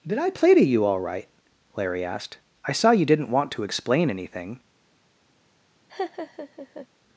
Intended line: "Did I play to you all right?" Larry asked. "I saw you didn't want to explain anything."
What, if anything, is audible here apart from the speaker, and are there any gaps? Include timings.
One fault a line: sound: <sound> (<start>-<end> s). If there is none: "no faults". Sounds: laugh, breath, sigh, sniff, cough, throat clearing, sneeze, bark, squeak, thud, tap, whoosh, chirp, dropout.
sound: laugh (5.9-6.9 s)